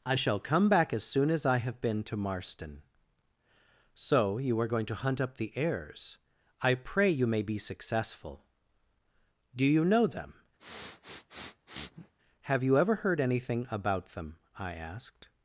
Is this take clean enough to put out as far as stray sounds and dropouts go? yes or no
no